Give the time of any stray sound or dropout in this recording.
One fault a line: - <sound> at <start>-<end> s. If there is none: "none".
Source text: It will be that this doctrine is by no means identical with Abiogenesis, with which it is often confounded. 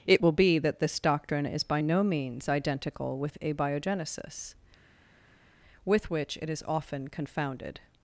none